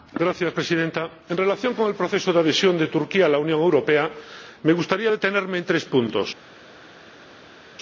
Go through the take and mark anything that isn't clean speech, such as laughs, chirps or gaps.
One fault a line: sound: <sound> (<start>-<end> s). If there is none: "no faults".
no faults